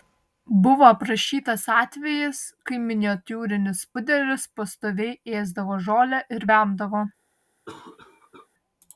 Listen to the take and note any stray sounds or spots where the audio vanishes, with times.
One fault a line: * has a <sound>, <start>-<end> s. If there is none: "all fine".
* has a cough, 7.7-8.5 s